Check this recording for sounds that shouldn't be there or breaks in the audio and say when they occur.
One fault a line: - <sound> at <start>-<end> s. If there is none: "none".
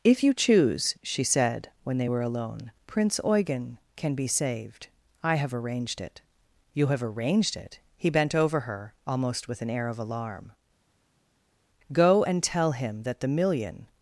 none